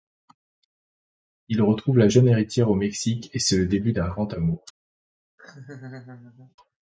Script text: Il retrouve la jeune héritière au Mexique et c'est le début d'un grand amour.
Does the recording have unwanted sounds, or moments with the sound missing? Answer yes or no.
yes